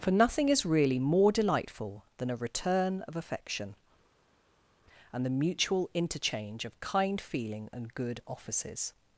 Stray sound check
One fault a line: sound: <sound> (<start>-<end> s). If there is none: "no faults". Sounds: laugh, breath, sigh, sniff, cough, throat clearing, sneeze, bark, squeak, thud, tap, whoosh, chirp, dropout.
no faults